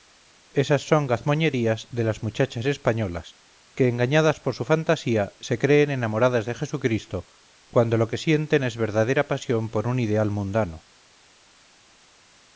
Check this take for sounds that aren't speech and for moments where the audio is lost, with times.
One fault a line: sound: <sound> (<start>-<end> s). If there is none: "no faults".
no faults